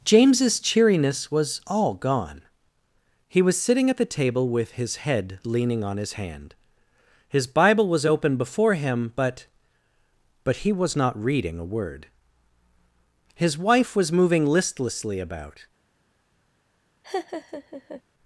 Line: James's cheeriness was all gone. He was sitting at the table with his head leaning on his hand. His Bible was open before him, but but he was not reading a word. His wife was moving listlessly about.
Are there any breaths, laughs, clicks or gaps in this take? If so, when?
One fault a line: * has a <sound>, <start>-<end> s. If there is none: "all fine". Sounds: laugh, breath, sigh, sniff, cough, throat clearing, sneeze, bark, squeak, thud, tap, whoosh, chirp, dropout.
* has a laugh, 17.0-18.0 s